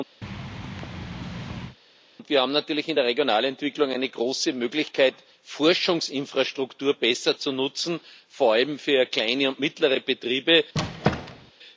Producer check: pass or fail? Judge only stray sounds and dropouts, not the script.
fail